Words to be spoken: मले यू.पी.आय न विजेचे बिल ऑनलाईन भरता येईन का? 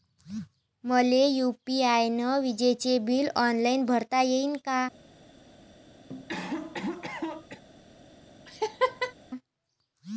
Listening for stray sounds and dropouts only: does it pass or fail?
fail